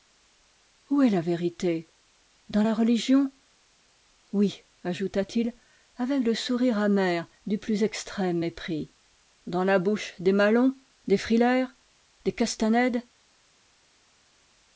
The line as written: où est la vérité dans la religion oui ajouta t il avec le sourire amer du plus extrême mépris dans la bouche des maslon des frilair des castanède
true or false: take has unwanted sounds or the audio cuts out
false